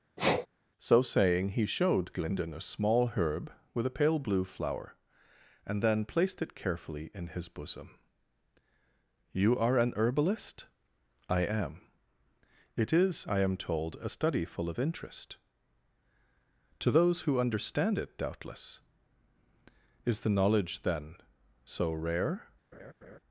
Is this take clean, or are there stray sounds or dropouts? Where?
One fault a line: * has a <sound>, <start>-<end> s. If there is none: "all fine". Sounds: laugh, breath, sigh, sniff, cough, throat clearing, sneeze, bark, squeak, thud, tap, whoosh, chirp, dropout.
* has a sneeze, 0.2-0.5 s
* has a laugh, 22.7-23.2 s